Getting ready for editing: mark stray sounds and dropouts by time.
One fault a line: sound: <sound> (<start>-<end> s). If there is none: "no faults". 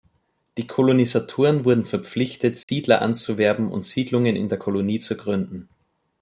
sound: dropout (2.6-2.7 s)